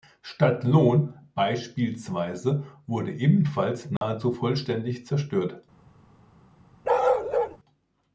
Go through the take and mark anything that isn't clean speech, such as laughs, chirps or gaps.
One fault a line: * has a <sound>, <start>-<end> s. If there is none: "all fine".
* has a dropout, 4.0-4.0 s
* has a bark, 6.8-7.6 s